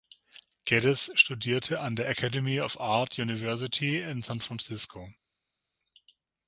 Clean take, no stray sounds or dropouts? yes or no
yes